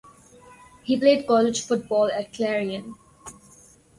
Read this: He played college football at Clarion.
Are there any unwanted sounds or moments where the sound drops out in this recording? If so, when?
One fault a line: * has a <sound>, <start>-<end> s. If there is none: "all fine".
all fine